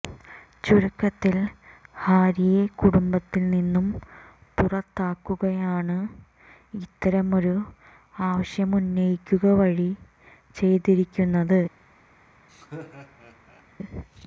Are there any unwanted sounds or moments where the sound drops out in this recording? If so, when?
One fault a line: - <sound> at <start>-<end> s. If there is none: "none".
- laugh at 12.5-13.6 s